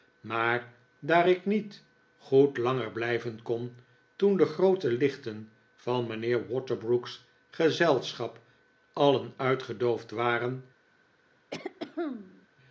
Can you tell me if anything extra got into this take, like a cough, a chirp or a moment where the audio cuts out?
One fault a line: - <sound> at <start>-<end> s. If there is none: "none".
- throat clearing at 11.5-12.5 s